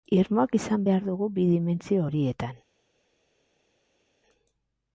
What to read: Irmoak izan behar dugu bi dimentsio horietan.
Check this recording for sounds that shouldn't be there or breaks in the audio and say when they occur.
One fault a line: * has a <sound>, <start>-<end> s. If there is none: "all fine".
all fine